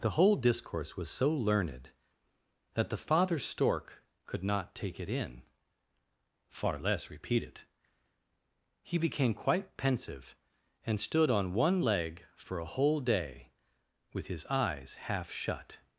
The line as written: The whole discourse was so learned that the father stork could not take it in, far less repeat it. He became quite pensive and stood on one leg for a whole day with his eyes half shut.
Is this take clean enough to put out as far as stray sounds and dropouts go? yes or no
yes